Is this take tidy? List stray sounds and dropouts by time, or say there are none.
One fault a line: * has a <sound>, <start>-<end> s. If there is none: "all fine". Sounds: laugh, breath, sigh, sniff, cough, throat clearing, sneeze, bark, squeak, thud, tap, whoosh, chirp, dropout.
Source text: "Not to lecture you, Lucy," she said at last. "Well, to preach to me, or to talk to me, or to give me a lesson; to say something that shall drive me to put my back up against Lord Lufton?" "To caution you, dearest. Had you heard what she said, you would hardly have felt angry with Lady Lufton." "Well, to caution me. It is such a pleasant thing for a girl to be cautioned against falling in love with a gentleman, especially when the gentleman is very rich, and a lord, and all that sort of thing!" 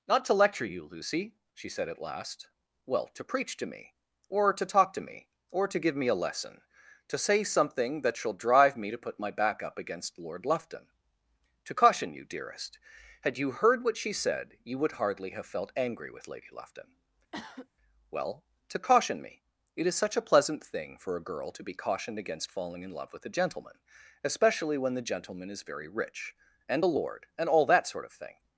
* has a cough, 17.3-17.7 s